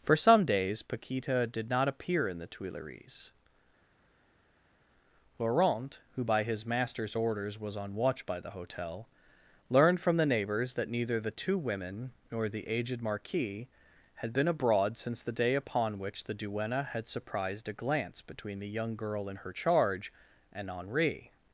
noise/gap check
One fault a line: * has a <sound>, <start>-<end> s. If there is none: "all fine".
all fine